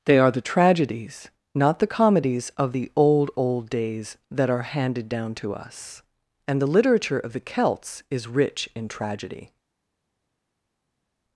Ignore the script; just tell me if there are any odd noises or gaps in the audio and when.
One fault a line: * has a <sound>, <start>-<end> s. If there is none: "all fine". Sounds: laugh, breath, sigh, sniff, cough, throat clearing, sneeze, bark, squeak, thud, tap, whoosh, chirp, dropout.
all fine